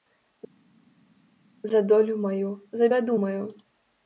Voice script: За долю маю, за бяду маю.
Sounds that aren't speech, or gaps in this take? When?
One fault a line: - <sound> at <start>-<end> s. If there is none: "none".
none